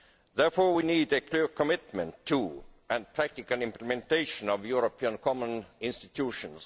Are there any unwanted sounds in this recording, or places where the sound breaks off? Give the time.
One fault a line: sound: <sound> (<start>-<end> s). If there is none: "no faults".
no faults